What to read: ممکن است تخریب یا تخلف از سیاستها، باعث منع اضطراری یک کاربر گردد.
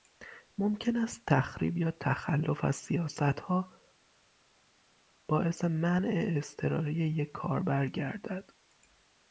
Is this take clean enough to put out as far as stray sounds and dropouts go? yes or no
yes